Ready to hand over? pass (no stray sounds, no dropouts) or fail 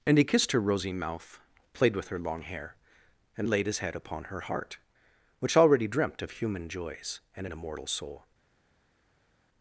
pass